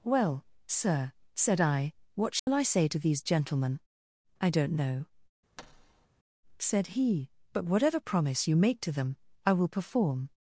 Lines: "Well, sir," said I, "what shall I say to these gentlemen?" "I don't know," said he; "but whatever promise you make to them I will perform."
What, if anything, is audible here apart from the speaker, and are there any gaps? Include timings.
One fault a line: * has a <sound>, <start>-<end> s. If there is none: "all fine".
* has a dropout, 2.4-2.5 s
* has a thud, 5.6-6.1 s